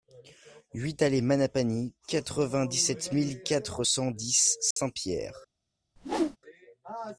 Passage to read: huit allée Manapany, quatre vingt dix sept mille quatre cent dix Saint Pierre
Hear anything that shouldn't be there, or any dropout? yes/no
yes